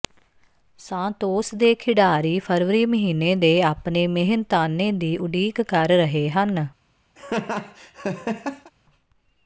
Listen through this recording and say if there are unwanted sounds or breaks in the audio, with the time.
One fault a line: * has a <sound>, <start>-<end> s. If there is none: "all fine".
* has a laugh, 7.2-8.7 s